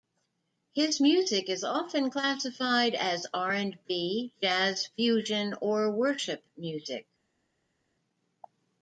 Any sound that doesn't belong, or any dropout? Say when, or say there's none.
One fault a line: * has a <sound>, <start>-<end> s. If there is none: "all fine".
all fine